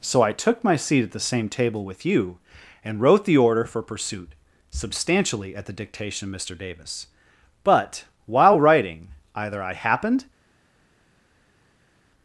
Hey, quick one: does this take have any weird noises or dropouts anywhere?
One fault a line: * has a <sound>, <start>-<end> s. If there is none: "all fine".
all fine